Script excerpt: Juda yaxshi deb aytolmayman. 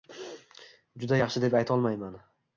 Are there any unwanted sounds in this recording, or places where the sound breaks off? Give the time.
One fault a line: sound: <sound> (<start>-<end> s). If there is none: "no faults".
no faults